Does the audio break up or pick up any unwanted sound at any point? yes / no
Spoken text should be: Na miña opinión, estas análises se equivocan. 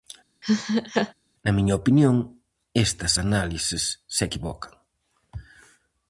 yes